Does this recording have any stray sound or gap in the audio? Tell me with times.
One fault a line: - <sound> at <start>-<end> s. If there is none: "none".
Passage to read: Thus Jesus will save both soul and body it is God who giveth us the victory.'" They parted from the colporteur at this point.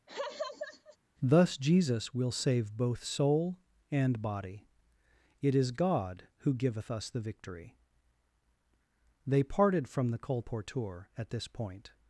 - laugh at 0.1-1.0 s